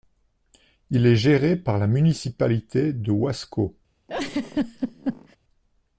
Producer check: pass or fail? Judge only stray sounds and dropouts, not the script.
fail